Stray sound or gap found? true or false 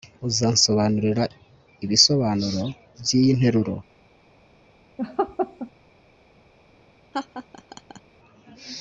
true